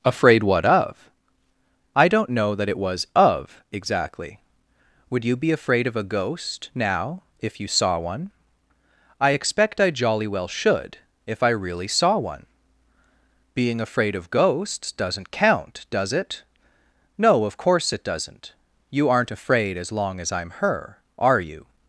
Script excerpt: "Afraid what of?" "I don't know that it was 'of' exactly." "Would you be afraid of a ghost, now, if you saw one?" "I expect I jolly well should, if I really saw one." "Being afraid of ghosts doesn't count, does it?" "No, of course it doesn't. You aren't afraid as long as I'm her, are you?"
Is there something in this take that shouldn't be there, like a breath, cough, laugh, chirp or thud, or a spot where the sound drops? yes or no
no